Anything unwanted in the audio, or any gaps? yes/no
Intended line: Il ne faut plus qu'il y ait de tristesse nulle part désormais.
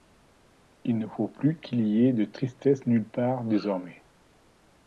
no